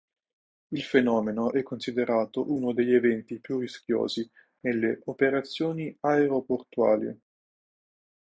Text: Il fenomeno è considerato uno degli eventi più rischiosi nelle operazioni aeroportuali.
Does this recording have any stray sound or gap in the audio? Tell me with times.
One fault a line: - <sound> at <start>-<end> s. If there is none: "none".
none